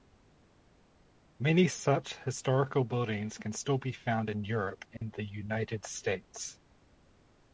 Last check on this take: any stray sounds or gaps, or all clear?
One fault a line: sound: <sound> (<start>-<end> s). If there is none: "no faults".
sound: dropout (5.0-5.0 s)